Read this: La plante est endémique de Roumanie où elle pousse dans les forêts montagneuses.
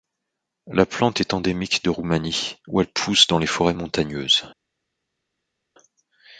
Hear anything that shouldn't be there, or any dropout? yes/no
no